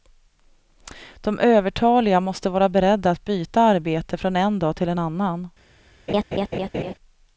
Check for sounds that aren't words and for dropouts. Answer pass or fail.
fail